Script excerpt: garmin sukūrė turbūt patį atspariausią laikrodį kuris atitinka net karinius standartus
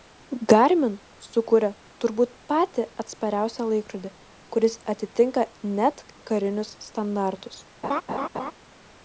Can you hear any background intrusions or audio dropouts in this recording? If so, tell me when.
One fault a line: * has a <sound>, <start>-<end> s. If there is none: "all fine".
* has a laugh, 7.8-8.5 s